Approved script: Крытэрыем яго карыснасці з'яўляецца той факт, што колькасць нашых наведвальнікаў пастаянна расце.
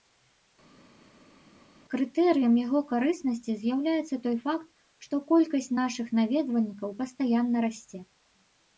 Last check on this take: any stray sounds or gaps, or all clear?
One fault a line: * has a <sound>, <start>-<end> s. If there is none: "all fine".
all fine